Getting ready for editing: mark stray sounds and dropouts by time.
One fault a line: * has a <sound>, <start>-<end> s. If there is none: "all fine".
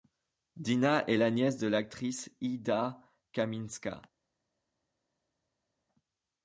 all fine